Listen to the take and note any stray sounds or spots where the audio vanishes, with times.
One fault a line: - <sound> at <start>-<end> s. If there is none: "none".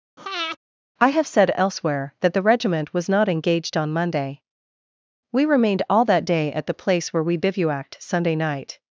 - breath at 0.2-0.6 s